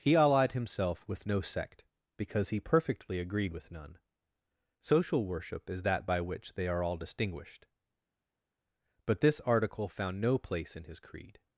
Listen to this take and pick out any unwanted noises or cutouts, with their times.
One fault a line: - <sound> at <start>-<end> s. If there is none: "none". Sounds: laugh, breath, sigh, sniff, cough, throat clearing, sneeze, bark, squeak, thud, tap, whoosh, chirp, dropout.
none